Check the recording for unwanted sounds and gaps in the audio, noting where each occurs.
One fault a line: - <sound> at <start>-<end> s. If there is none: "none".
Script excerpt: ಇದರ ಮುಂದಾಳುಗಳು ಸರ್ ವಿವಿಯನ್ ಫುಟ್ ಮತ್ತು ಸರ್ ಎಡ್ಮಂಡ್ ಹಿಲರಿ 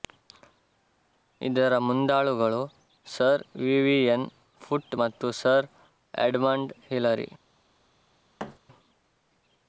- thud at 8.4-8.6 s